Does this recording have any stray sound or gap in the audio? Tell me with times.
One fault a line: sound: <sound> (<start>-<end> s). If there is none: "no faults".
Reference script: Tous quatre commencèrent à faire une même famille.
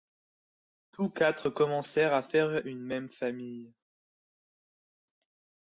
no faults